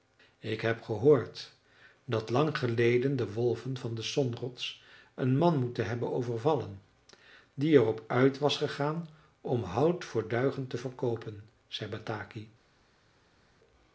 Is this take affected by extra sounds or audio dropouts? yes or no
no